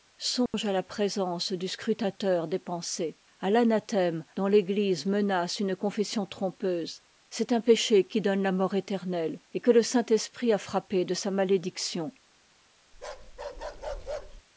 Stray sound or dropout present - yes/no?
yes